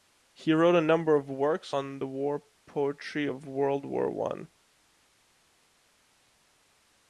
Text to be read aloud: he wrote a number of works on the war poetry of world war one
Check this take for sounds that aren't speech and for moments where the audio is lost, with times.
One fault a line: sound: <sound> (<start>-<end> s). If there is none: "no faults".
no faults